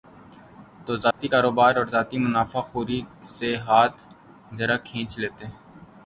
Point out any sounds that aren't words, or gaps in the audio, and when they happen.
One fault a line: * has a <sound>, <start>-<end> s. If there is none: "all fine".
* has a dropout, 1.1-1.2 s